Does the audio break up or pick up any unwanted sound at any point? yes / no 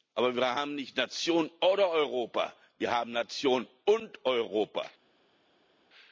no